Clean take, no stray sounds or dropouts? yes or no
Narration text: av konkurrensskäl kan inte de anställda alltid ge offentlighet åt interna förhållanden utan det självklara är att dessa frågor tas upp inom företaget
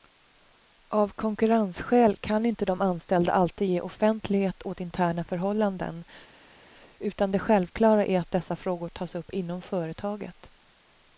yes